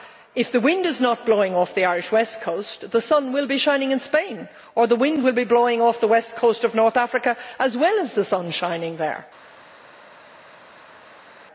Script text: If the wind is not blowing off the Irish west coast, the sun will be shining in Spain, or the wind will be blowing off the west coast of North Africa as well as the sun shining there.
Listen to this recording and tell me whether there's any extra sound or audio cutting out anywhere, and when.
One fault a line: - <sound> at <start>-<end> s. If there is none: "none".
none